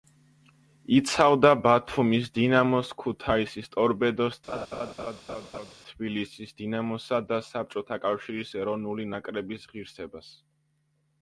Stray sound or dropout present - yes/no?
yes